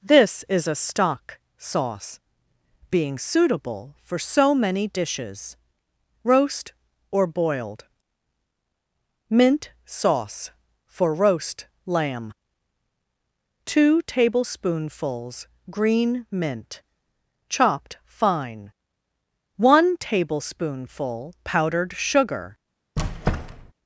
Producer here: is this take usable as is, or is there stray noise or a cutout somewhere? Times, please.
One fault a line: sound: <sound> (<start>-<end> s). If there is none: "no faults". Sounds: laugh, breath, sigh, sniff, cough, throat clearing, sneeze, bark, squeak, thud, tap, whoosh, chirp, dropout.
sound: squeak (23.0-23.7 s)